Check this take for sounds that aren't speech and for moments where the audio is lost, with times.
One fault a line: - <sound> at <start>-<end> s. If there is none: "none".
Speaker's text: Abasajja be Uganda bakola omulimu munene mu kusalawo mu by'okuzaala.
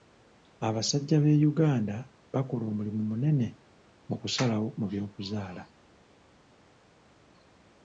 none